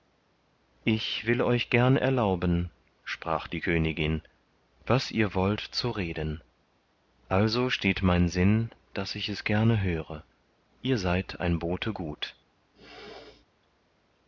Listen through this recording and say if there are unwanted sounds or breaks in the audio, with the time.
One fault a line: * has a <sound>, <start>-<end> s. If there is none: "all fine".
* has a throat clearing, 12.8-13.5 s